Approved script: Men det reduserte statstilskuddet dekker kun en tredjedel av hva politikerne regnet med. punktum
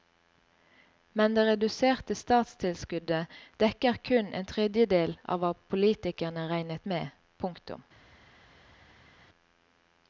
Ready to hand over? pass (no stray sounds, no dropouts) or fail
pass